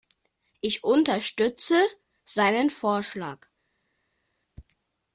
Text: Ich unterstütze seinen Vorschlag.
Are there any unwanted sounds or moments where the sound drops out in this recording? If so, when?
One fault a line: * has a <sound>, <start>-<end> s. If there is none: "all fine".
all fine